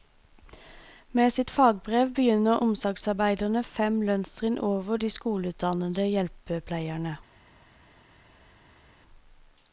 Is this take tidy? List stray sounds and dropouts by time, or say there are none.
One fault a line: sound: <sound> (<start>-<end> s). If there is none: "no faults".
no faults